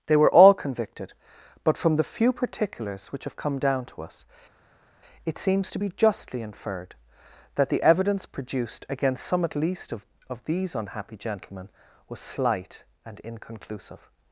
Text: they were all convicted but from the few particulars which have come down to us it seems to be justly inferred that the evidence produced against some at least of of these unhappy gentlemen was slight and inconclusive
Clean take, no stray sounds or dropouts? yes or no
yes